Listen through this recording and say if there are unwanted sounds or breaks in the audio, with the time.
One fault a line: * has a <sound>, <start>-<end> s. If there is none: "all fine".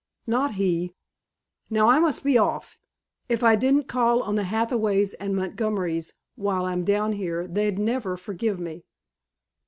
all fine